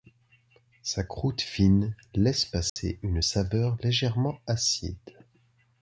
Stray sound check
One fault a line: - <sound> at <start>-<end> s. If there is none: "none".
- dropout at 2.7-2.8 s